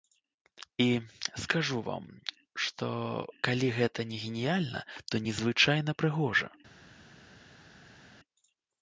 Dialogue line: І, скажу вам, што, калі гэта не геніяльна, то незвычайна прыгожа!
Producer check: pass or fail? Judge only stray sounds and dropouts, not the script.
pass